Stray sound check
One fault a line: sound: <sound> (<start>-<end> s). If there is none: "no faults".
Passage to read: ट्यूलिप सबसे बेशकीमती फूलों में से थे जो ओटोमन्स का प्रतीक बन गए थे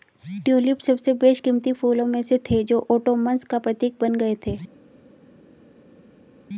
no faults